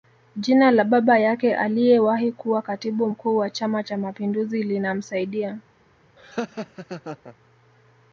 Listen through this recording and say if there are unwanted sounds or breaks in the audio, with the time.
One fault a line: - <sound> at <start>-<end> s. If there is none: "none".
- laugh at 6.2-7.4 s